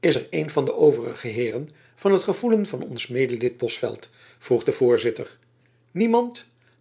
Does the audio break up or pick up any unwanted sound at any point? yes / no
no